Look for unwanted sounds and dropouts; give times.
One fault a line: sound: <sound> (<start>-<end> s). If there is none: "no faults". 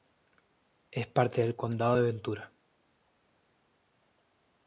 no faults